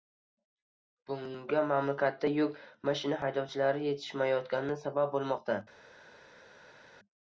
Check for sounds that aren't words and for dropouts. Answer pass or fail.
pass